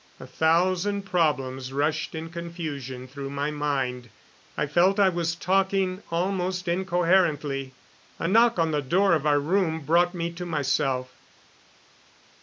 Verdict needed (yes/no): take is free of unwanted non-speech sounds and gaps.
yes